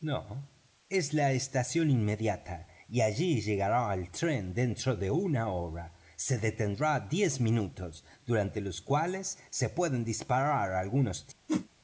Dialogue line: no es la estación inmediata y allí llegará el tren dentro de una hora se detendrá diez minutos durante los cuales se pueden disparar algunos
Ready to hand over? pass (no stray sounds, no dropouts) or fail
fail